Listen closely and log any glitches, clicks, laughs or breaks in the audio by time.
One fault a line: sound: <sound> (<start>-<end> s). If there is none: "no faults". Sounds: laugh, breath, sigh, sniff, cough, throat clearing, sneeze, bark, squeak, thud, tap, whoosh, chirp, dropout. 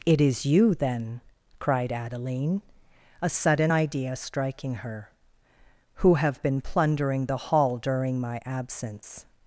no faults